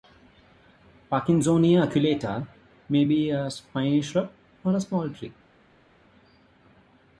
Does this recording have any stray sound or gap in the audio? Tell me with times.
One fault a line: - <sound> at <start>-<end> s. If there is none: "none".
none